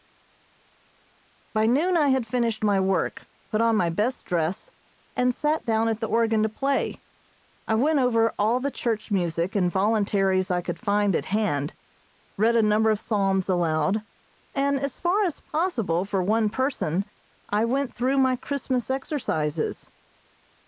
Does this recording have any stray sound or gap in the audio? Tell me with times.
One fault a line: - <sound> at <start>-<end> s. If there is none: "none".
none